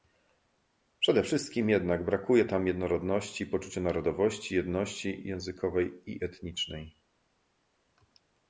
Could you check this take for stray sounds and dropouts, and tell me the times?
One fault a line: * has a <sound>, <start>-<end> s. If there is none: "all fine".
all fine